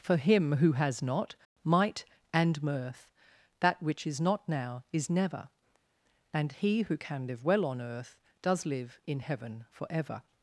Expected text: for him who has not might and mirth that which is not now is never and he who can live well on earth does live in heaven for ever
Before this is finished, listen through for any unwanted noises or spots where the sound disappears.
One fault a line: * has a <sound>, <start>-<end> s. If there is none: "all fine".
all fine